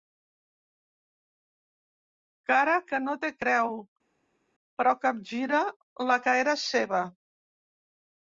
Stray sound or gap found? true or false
false